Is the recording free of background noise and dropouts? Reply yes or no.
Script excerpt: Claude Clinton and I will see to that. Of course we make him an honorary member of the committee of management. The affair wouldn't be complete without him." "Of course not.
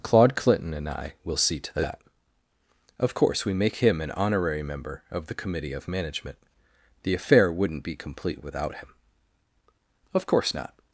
yes